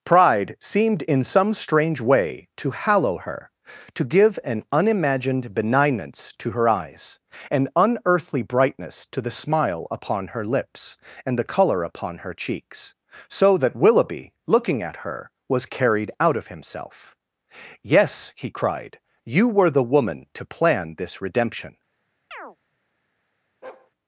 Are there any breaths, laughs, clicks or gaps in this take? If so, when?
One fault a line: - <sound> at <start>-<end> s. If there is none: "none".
- chirp at 22.3-22.6 s
- bark at 23.6-23.9 s